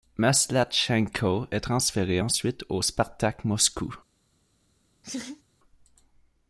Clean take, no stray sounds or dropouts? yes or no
no